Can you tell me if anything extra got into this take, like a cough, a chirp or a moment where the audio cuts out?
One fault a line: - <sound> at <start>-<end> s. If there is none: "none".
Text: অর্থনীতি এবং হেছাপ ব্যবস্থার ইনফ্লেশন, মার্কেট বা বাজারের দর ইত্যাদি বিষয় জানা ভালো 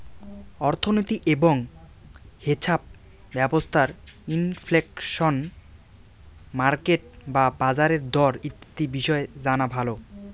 - dropout at 8.6-8.8 s